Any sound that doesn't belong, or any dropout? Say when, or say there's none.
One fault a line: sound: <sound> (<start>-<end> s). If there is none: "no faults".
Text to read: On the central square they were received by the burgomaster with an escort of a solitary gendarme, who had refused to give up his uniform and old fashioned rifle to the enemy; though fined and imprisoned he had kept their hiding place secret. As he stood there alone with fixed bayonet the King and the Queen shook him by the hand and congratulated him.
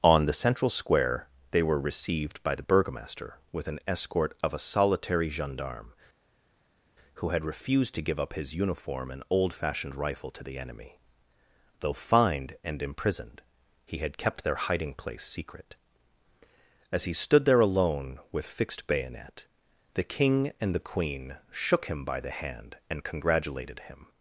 no faults